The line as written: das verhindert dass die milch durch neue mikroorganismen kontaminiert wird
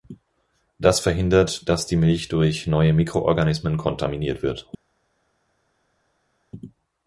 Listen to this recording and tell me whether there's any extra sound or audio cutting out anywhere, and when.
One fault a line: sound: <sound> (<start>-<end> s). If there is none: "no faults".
no faults